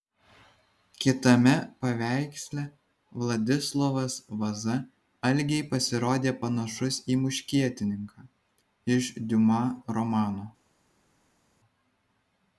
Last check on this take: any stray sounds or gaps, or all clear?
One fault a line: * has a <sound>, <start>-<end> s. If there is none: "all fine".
all fine